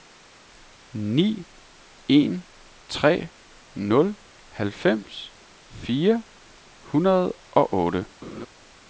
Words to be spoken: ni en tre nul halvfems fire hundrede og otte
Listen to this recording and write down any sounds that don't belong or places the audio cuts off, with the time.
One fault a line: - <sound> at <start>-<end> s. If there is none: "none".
- laugh at 8.2-8.5 s